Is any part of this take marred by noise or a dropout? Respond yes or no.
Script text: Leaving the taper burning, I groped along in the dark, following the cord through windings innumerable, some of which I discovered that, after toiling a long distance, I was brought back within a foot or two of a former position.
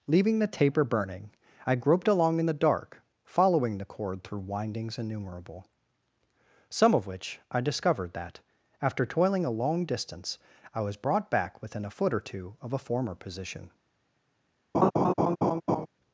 yes